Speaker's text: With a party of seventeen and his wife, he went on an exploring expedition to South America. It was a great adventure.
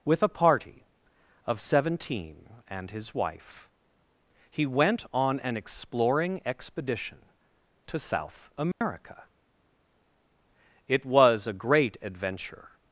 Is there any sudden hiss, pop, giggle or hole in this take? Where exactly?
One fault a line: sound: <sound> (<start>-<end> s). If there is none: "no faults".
sound: dropout (8.7-8.8 s)